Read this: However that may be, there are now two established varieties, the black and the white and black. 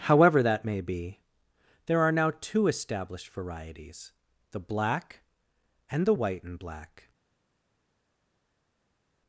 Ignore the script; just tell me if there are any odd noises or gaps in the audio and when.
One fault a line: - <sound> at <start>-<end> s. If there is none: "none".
none